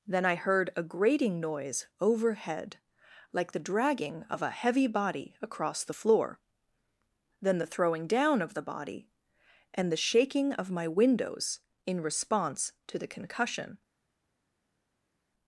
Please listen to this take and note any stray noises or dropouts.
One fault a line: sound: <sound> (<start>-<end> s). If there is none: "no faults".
no faults